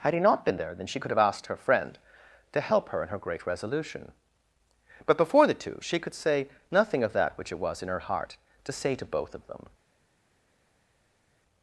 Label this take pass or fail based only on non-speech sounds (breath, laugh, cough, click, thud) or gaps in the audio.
pass